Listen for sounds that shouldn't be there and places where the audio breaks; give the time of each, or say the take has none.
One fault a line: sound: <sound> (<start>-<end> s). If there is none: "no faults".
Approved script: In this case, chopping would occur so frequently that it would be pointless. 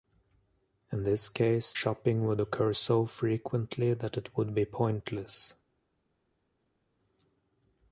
no faults